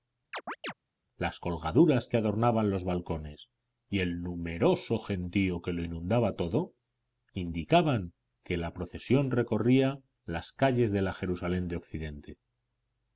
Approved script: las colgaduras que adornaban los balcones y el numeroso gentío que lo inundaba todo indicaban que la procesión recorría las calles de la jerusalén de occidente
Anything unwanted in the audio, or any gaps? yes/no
yes